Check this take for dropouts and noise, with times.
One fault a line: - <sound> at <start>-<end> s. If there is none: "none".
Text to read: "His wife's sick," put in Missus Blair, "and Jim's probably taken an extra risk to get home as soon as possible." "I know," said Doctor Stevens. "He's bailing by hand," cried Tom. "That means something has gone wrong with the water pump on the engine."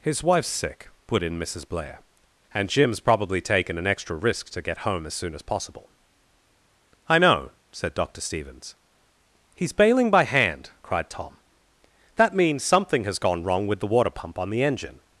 none